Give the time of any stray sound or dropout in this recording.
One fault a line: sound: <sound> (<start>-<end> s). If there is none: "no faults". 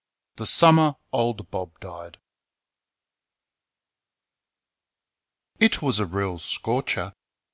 no faults